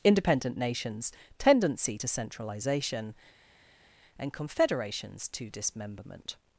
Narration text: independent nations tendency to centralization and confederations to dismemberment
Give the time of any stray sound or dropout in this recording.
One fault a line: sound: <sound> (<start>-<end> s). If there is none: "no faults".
no faults